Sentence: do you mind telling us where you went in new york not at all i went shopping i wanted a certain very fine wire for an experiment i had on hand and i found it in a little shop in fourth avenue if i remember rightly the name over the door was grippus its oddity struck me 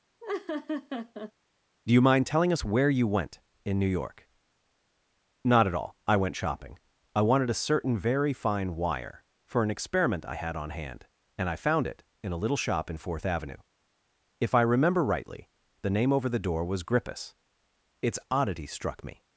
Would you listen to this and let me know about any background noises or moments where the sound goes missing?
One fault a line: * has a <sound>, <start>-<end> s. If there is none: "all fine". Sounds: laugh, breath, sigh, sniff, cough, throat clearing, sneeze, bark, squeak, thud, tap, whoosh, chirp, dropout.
* has a laugh, 0.2-1.3 s